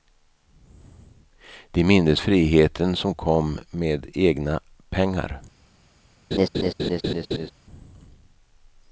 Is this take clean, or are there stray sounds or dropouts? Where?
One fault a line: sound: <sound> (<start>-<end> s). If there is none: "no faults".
sound: laugh (6.3-7.5 s)